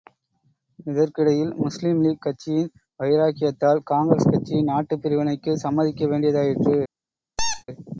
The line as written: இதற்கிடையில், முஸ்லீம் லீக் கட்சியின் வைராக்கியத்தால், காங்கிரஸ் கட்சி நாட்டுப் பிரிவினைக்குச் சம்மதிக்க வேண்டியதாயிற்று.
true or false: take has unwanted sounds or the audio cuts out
true